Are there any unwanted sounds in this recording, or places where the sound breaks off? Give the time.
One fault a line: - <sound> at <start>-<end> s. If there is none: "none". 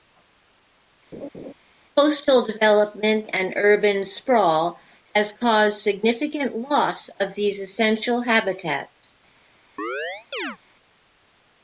- laugh at 1.1-1.5 s
- chirp at 9.8-10.6 s